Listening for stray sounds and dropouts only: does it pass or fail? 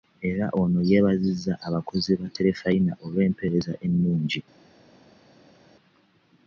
pass